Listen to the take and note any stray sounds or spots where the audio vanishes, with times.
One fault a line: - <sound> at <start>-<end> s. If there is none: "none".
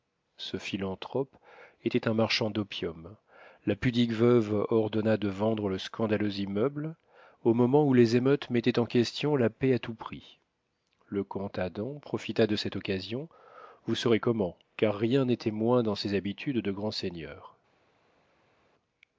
none